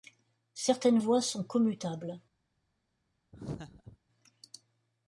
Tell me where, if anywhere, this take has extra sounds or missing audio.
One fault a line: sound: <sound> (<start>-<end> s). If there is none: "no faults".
sound: laugh (3.3-4.0 s)